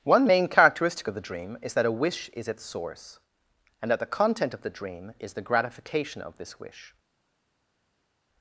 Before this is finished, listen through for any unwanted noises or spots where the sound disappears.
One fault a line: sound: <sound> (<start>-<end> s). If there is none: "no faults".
no faults